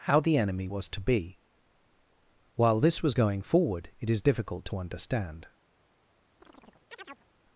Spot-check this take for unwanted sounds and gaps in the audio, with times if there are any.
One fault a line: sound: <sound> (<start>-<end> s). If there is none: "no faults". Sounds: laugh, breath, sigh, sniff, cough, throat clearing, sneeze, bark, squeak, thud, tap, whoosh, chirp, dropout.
sound: chirp (6.4-7.3 s)